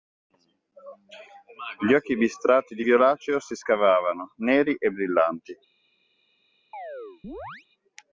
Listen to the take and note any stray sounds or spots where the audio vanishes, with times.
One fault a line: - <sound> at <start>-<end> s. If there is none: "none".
- chirp at 6.7-7.7 s